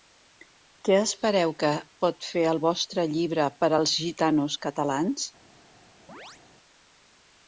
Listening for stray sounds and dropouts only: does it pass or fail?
fail